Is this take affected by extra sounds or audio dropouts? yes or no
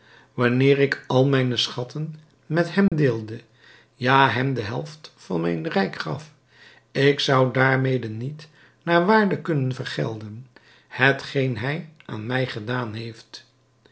yes